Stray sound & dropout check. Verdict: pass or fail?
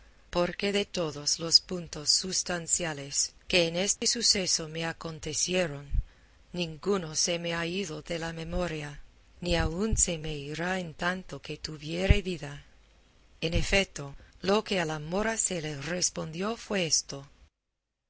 fail